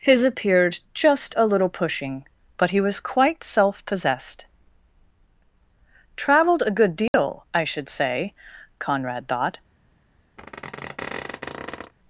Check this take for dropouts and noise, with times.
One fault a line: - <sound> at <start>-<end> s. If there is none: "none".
- dropout at 7.1-7.1 s
- squeak at 10.4-11.9 s